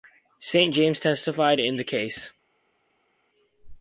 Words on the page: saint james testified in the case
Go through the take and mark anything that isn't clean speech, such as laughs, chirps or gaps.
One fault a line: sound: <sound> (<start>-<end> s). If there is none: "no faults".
no faults